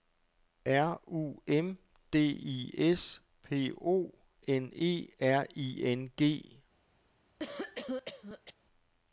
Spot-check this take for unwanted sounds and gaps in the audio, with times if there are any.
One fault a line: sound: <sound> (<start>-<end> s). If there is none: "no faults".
sound: cough (7.4-8.5 s)